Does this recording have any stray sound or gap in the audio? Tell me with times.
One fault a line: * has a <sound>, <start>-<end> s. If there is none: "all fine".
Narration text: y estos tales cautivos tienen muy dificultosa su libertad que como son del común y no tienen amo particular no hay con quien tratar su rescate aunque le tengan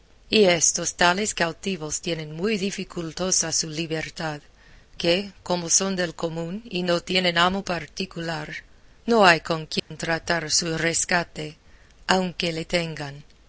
* has a dropout, 9.8-9.9 s